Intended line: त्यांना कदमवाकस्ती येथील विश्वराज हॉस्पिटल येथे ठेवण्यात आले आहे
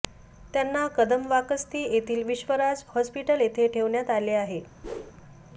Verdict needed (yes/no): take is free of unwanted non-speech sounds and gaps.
no